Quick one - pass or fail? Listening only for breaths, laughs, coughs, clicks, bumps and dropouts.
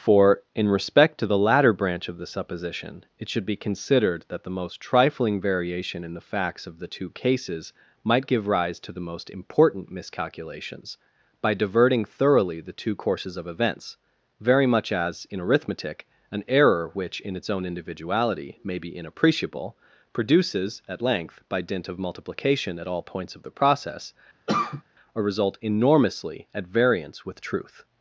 fail